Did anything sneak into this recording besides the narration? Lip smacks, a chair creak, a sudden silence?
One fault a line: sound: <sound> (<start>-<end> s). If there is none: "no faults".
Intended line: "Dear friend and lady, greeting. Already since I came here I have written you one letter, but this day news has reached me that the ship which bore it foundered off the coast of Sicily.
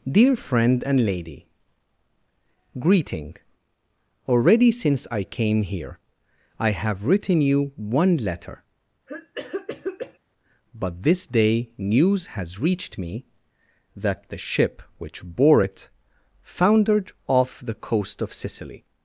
sound: cough (9.1-10.2 s)